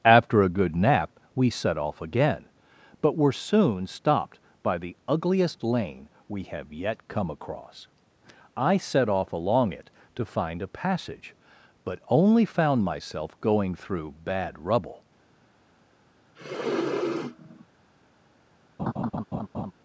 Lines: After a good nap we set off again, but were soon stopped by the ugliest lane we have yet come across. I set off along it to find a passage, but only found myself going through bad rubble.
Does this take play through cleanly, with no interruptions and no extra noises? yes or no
no